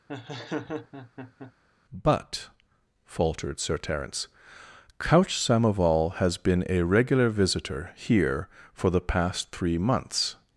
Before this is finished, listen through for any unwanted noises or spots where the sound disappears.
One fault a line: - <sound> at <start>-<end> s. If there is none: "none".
- laugh at 0.1-1.5 s